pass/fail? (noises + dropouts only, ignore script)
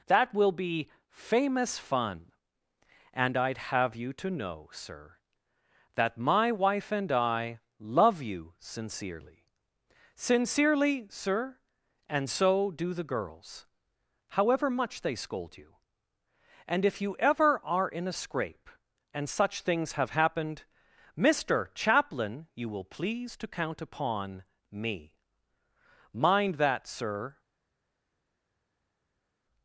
pass